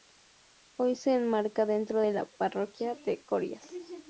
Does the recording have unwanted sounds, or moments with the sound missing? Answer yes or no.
no